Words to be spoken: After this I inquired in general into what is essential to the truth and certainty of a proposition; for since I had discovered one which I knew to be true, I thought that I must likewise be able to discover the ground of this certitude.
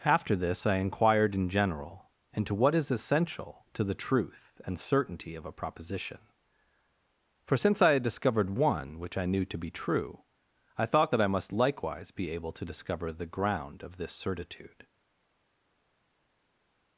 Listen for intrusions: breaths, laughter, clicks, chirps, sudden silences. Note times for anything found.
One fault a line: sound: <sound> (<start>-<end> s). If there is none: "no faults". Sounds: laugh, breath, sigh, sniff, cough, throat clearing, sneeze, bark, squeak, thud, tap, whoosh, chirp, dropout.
no faults